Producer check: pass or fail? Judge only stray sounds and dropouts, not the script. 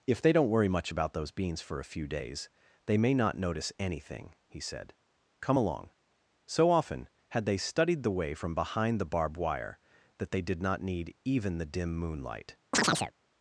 fail